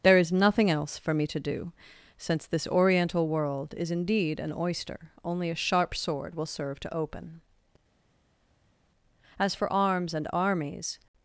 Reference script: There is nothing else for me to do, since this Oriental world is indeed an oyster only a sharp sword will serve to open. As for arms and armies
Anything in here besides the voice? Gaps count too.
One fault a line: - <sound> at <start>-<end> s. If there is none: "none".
none